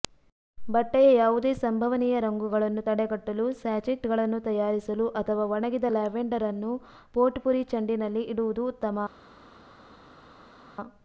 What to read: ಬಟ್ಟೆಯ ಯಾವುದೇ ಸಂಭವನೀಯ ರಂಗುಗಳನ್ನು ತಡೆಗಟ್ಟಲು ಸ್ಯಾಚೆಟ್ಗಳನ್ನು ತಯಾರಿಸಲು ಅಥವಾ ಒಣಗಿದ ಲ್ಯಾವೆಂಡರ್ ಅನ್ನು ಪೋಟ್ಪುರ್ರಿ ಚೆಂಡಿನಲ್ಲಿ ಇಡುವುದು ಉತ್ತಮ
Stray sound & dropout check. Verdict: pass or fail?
pass